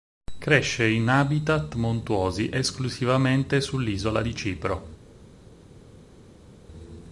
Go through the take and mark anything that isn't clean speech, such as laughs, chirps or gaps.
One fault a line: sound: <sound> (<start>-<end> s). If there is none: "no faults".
no faults